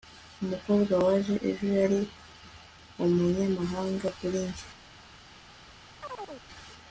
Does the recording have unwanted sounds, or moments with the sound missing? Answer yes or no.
yes